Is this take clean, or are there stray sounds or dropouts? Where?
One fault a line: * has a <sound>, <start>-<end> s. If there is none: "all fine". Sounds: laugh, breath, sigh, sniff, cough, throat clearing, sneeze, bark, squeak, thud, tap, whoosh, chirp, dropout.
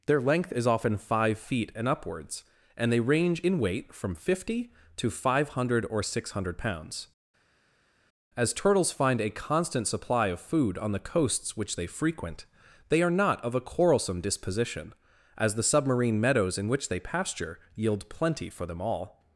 all fine